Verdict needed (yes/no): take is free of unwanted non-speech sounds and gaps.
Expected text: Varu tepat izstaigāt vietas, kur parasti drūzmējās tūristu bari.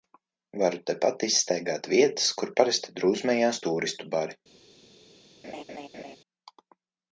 no